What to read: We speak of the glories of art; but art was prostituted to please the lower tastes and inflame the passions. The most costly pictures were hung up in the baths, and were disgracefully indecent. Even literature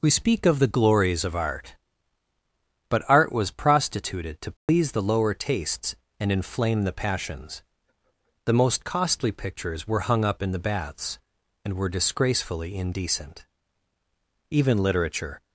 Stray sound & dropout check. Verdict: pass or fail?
fail